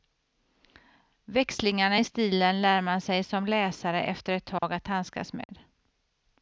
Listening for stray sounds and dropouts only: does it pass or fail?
fail